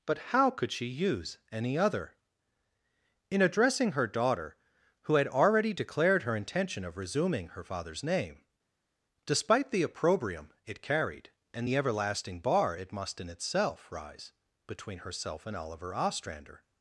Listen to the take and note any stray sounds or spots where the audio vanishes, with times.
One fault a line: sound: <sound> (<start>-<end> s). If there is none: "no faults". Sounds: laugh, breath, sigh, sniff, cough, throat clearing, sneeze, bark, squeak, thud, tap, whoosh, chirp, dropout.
no faults